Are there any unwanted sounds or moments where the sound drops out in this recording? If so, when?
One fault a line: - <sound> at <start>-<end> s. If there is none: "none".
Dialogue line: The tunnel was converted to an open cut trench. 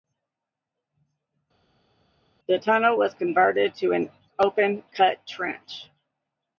none